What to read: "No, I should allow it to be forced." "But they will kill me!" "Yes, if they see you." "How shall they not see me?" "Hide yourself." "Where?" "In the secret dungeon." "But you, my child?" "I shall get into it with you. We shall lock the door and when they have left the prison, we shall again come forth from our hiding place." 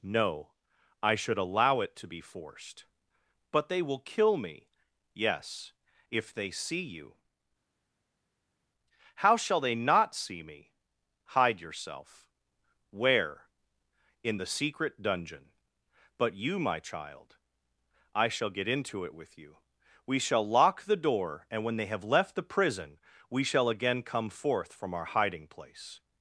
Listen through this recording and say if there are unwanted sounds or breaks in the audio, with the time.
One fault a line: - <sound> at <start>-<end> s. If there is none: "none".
none